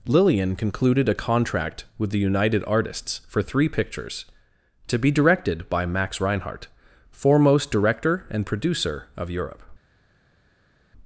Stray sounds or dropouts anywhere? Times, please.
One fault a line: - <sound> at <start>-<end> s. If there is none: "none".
none